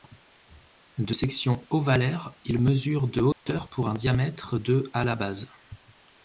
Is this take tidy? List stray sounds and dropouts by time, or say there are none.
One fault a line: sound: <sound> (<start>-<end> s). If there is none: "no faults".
sound: dropout (3.3-3.5 s)